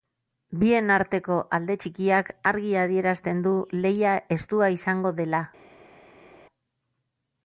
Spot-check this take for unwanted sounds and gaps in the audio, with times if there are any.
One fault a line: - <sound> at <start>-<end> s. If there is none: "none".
none